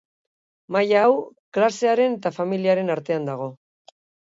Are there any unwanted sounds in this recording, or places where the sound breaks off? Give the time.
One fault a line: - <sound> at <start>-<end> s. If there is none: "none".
none